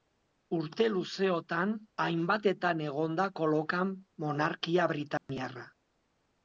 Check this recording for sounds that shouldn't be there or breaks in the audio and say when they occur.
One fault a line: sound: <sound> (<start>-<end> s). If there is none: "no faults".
sound: dropout (5.2-5.3 s)